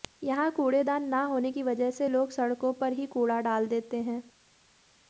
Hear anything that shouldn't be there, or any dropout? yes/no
no